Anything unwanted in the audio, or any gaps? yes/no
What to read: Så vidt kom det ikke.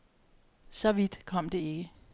no